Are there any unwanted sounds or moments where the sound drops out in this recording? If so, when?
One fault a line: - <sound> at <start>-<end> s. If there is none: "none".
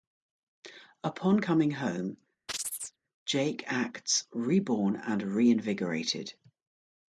- chirp at 2.5-3.0 s